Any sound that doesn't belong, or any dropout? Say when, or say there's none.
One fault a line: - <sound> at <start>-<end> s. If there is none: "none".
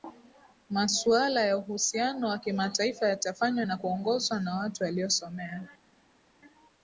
none